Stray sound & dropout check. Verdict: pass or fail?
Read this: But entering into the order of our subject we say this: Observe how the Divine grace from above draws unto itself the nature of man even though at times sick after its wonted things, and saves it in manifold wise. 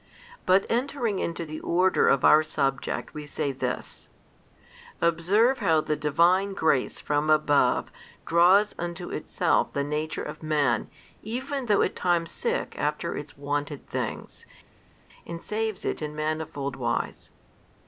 pass